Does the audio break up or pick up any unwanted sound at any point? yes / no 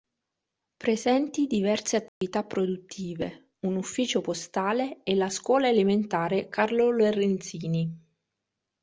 yes